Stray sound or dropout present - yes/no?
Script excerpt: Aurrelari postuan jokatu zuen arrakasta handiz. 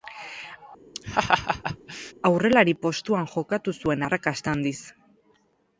yes